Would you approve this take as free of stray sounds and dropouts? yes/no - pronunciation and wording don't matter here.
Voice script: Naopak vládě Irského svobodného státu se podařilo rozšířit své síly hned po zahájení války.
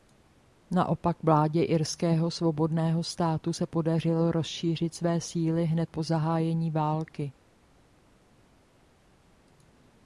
yes